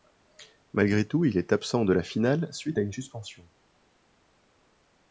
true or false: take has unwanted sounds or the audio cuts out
false